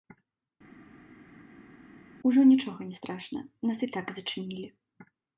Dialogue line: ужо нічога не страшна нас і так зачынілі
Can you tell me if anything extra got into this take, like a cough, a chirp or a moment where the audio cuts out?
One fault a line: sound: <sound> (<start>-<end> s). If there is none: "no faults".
no faults